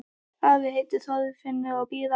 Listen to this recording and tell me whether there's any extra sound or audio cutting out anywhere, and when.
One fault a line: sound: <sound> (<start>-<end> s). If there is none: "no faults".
no faults